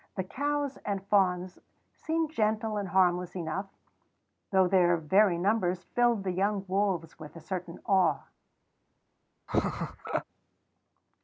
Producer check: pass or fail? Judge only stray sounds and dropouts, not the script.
fail